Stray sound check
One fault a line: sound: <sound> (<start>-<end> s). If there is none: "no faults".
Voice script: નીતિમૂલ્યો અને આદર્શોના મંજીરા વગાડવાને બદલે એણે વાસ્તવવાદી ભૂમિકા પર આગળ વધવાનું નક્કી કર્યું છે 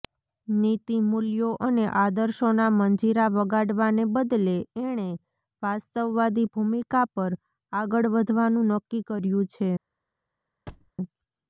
sound: thud (10.7-10.9 s)